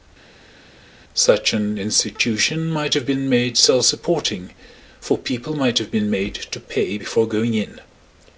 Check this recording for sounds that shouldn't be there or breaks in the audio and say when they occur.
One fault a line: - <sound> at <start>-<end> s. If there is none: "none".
none